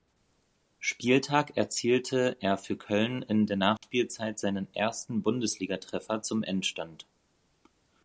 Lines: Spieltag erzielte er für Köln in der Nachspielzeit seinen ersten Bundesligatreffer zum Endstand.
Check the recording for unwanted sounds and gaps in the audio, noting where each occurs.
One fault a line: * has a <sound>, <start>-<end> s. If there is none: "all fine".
* has a dropout, 3.8-3.8 s